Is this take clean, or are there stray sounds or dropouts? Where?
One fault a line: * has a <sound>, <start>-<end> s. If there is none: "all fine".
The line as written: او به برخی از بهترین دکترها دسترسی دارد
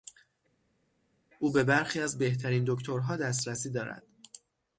all fine